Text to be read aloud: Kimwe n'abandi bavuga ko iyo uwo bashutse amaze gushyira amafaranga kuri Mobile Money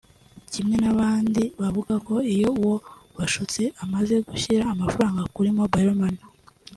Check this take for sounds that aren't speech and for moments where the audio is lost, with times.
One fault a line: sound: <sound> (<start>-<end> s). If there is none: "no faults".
no faults